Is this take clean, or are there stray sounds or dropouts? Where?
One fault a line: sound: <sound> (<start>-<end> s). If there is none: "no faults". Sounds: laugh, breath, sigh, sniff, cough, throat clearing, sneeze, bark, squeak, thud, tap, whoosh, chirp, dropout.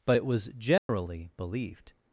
sound: dropout (0.8-0.9 s)